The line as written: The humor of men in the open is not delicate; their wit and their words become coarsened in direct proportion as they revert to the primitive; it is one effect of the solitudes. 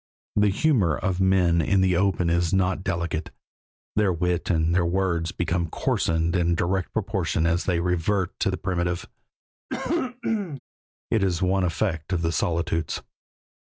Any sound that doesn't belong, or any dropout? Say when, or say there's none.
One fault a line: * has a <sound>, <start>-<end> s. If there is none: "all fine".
* has a cough, 9.7-10.6 s